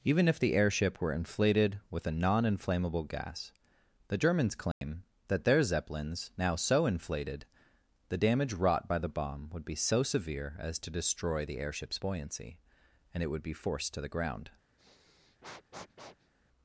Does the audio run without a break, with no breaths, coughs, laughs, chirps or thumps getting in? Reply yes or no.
no